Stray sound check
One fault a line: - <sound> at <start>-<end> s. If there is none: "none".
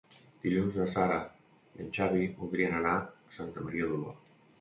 none